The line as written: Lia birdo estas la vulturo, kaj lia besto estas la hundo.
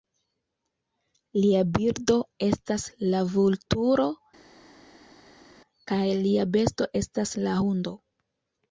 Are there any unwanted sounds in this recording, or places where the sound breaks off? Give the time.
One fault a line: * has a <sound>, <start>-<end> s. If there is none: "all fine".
all fine